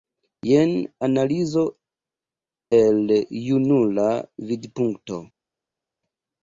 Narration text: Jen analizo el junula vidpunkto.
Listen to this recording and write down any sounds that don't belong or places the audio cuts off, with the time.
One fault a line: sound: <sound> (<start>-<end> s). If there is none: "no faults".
no faults